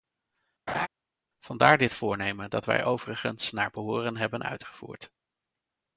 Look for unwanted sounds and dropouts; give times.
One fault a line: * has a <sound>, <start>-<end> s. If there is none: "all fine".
* has a laugh, 0.7-0.9 s